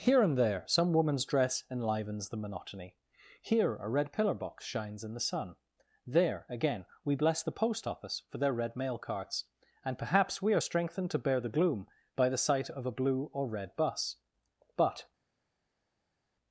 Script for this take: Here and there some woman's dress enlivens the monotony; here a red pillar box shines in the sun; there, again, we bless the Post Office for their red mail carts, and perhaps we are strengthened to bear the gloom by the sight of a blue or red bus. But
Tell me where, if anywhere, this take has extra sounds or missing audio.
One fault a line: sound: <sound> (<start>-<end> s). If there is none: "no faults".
no faults